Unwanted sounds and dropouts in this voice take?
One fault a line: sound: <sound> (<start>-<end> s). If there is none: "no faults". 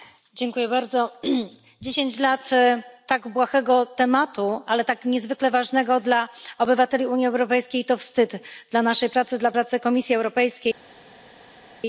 no faults